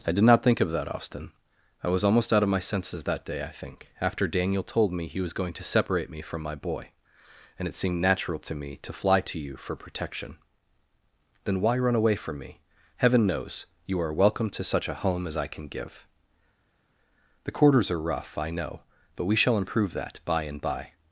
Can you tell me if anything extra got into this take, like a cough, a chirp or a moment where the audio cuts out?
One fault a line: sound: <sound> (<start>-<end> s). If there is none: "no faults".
no faults